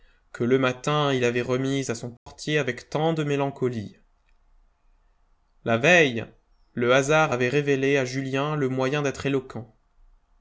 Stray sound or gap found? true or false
true